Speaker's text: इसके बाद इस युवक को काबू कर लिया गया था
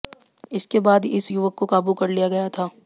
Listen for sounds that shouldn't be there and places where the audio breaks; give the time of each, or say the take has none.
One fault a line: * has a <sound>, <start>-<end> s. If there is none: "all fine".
all fine